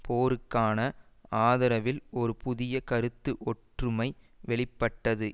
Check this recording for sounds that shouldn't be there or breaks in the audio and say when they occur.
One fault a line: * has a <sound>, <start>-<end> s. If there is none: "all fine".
all fine